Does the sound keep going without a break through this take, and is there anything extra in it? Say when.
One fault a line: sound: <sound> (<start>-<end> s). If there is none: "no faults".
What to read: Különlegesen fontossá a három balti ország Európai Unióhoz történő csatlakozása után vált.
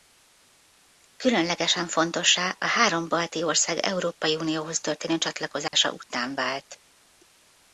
sound: dropout (5.7-5.7 s)